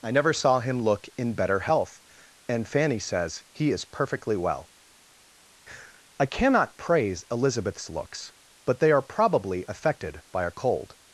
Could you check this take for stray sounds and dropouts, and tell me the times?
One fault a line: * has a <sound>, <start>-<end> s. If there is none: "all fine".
all fine